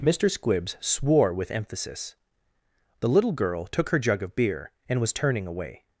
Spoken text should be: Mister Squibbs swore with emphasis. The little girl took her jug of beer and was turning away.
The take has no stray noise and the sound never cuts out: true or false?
true